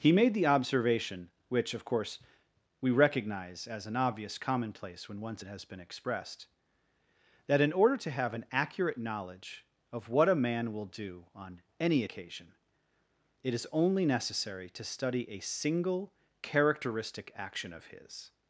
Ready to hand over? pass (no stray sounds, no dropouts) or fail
pass